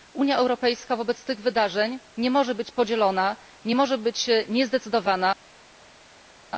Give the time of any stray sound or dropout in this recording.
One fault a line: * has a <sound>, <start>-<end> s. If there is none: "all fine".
all fine